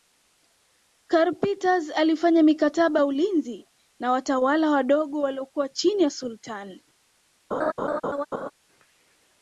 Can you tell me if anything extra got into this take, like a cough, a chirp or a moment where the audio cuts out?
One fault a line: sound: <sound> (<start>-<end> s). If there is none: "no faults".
sound: laugh (7.5-8.5 s)